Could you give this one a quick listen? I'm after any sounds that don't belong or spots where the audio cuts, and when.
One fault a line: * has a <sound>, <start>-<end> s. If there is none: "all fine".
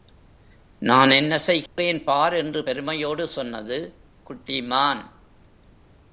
* has a dropout, 1.7-1.8 s